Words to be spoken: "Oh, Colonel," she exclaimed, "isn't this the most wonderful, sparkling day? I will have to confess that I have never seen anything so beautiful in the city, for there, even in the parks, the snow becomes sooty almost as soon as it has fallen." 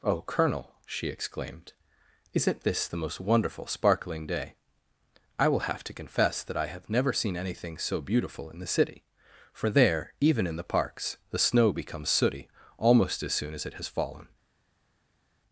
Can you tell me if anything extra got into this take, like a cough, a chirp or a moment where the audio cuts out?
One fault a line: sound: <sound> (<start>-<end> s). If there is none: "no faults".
no faults